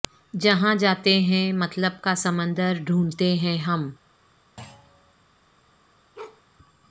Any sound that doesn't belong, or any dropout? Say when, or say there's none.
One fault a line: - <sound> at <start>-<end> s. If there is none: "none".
- thud at 4.6-5.1 s
- bark at 6.1-6.4 s